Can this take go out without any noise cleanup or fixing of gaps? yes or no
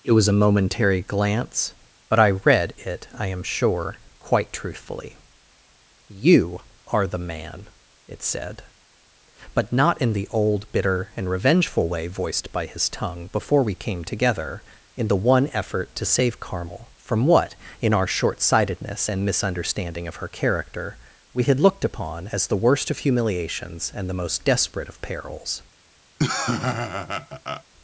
no